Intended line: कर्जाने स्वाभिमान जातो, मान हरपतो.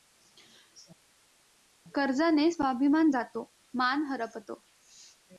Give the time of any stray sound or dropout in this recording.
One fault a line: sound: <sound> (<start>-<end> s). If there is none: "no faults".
no faults